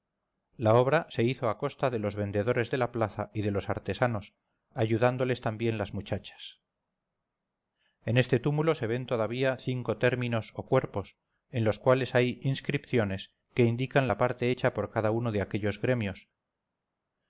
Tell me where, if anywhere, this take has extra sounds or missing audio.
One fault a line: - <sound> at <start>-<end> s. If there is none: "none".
none